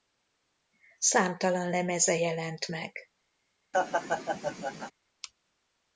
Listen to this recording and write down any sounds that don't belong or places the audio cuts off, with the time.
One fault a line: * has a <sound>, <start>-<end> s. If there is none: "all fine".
* has a laugh, 3.7-4.9 s